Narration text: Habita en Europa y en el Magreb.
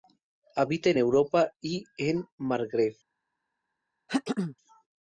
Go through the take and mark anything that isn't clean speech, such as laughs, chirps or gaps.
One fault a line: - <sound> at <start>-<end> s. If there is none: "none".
- throat clearing at 4.1-4.6 s